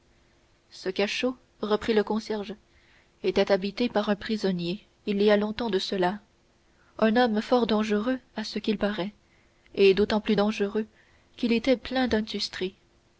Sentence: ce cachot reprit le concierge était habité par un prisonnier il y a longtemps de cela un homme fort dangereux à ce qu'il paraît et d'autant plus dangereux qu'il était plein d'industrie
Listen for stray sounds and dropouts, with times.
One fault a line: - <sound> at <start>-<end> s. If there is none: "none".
none